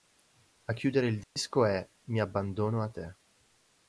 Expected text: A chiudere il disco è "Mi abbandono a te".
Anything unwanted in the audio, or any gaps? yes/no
yes